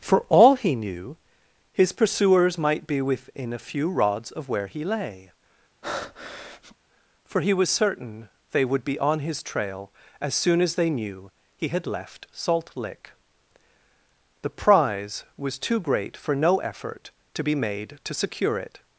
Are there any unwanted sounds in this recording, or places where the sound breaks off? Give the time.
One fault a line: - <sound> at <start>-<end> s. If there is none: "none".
- breath at 5.8-6.8 s